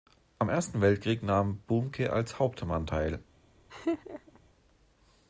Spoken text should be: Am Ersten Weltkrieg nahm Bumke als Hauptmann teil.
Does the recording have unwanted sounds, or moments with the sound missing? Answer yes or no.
yes